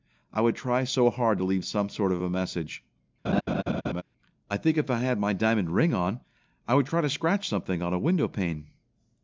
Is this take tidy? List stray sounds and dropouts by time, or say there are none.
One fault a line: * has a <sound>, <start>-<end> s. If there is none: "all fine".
* has a laugh, 3.2-4.0 s